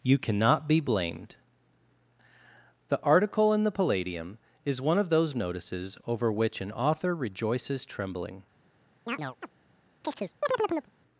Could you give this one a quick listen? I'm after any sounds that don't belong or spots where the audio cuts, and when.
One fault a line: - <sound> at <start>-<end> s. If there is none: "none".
- chirp at 9.1-9.5 s
- chirp at 10.0-10.9 s